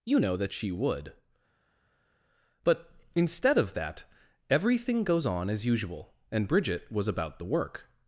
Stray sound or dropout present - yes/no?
no